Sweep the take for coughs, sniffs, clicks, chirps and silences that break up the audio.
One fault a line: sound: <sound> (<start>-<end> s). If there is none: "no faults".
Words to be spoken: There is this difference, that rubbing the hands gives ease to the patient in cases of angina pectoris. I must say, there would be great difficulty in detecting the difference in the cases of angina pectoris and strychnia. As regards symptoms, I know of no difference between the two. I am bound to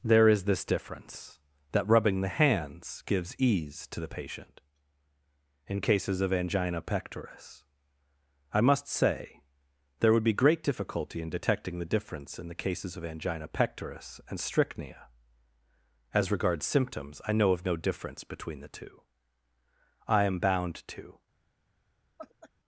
sound: laugh (22.2-22.5 s)